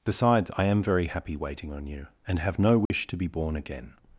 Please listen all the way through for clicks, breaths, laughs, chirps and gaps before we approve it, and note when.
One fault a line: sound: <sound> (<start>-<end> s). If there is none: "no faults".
sound: dropout (2.9-2.9 s)